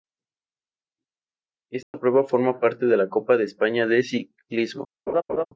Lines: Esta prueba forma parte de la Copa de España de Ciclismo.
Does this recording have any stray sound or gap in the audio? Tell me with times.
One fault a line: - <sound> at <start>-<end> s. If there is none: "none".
- dropout at 1.8-1.9 s
- laugh at 5.1-5.5 s